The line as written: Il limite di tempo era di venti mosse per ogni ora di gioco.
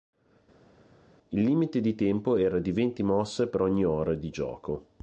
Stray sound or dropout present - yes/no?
no